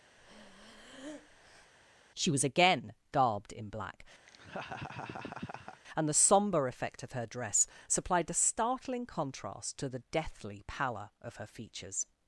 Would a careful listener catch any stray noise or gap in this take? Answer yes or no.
yes